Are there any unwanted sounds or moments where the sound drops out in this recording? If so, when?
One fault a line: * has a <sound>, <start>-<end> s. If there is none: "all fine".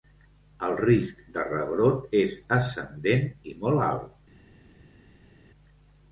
all fine